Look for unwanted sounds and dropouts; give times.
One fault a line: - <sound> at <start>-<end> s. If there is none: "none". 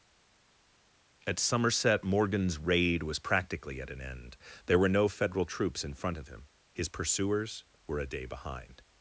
none